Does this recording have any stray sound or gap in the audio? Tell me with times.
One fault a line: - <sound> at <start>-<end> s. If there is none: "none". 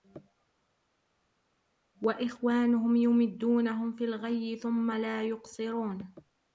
none